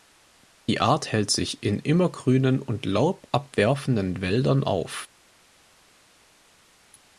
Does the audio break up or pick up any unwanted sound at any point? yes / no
no